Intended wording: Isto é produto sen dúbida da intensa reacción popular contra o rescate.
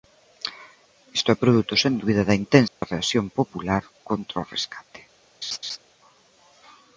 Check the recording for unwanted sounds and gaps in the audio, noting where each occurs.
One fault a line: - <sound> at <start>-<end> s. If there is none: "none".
- dropout at 2.7-2.8 s
- laugh at 5.4-5.8 s